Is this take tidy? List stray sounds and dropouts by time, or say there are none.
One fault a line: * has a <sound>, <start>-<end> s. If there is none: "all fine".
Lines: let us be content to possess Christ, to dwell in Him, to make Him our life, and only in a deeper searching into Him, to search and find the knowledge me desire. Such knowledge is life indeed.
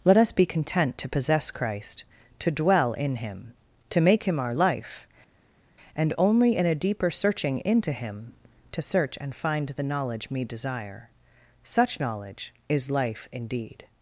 all fine